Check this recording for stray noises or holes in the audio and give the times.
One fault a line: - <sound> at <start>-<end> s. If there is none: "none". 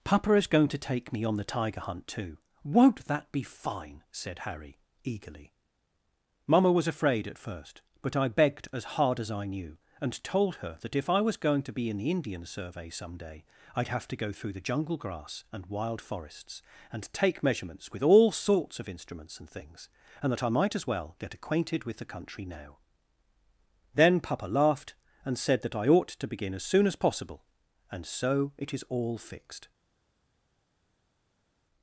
none